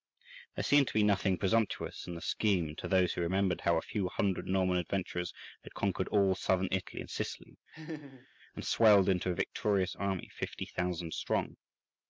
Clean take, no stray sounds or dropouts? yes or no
no